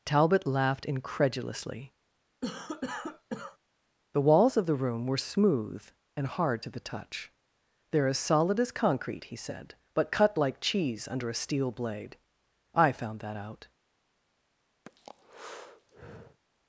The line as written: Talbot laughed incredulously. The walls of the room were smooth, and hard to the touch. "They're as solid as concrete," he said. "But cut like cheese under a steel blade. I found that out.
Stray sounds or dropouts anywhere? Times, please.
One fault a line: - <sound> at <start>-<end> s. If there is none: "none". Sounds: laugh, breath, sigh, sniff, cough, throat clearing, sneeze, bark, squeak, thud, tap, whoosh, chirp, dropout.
- cough at 2.4-3.6 s
- breath at 14.9-16.4 s